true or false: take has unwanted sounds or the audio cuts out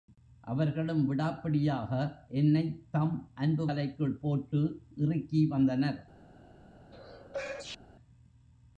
true